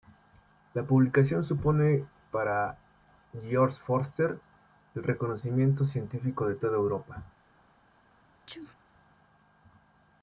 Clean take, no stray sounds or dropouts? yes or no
no